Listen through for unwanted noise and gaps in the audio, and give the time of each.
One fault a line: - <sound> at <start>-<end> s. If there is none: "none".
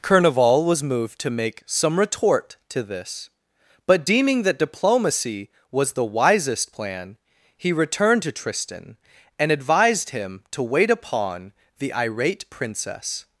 none